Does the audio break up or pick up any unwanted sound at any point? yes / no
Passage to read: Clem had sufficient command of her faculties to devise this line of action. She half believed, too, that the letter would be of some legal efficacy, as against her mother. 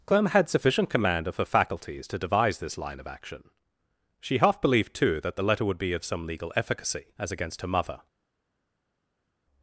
no